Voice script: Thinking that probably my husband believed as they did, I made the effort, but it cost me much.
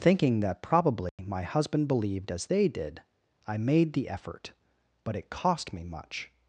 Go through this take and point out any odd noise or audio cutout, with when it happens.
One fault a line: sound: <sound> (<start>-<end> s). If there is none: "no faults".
sound: dropout (1.1-1.2 s)